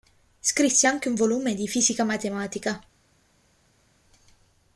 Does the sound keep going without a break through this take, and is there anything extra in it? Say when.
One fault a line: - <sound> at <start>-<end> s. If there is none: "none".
none